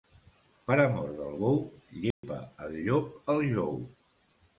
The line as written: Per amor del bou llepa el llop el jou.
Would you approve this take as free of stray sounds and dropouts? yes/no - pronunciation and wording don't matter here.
no